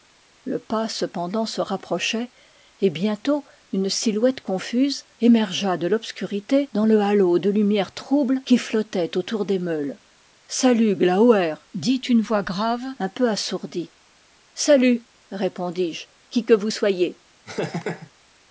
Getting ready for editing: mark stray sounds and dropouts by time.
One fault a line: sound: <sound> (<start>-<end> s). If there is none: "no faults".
sound: laugh (17.5-18.1 s)